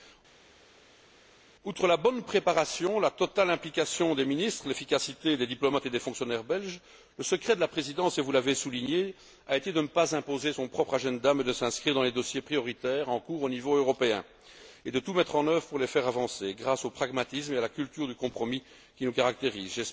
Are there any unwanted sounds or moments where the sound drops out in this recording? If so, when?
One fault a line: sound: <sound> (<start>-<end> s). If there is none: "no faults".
no faults